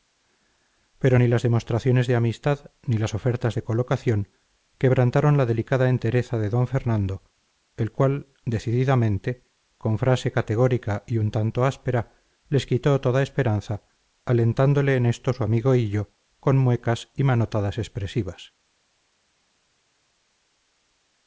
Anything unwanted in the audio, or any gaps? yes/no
no